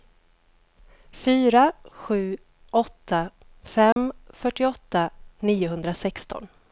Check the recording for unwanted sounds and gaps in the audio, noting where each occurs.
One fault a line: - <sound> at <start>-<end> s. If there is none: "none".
- dropout at 3.9-4.0 s